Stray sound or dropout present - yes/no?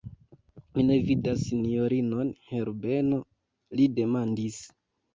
no